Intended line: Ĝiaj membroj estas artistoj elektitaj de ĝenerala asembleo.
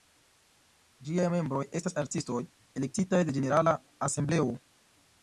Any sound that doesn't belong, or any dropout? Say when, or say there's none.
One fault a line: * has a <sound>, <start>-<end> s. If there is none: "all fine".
all fine